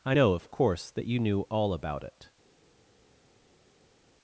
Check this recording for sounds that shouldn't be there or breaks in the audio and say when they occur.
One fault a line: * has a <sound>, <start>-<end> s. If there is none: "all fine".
all fine